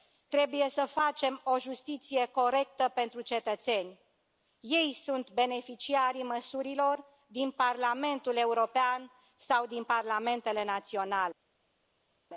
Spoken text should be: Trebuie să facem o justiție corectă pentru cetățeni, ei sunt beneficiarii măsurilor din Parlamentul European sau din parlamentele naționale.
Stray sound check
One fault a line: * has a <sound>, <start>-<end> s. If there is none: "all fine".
all fine